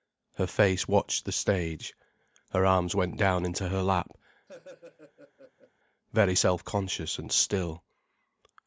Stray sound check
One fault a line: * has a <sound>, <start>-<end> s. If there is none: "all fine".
* has a laugh, 4.5-5.7 s